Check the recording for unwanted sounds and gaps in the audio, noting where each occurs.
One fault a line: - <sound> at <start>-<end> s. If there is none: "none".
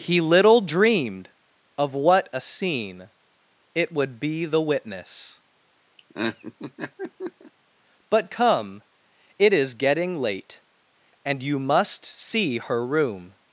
- laugh at 6.0-7.5 s